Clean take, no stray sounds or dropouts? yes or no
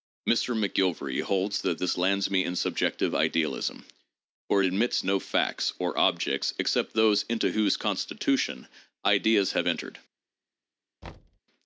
no